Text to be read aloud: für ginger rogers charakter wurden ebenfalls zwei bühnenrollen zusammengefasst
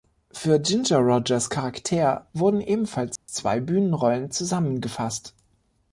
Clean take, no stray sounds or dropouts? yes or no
no